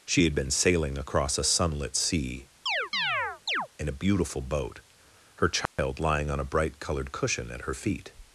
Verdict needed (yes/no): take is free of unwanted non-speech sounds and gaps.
no